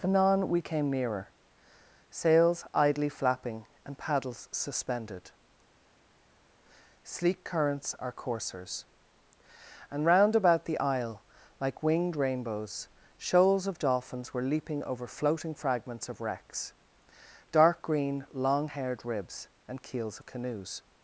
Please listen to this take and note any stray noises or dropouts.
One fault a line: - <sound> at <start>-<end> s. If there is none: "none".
none